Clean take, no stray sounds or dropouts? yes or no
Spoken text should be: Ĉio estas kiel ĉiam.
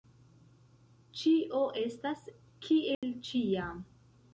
no